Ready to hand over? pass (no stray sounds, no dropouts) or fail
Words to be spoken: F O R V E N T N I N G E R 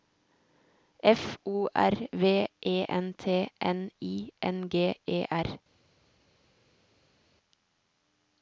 pass